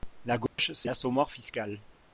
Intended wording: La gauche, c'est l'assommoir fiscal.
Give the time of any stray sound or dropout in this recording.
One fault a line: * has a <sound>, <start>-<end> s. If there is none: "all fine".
* has a dropout, 0.5-0.6 s